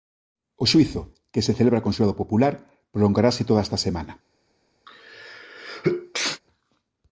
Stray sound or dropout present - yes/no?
yes